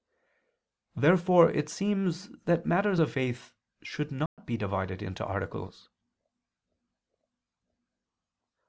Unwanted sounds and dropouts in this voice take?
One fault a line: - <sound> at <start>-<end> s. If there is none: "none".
- dropout at 4.3-4.4 s